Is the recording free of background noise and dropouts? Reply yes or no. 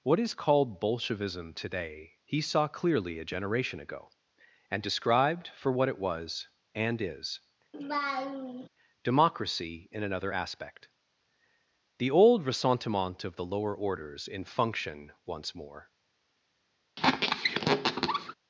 no